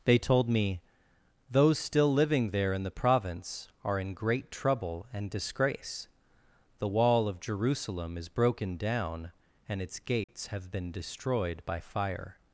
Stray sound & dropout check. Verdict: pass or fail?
fail